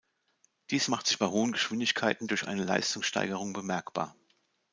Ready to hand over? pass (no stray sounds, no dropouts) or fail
pass